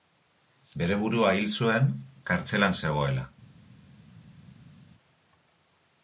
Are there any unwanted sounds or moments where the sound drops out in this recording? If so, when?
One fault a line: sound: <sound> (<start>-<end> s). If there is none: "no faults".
no faults